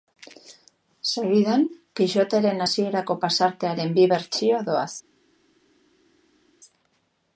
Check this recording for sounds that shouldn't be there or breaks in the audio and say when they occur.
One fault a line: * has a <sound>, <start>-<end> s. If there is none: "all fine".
all fine